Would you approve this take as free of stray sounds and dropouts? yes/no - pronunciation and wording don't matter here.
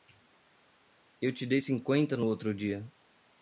yes